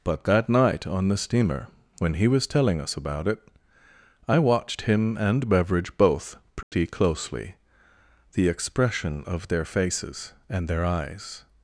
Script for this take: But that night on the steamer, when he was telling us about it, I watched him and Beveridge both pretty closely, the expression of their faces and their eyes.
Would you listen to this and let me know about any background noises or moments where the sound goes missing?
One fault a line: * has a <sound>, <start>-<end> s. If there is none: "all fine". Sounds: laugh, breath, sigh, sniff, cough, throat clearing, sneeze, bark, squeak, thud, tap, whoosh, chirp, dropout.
* has a dropout, 6.6-6.7 s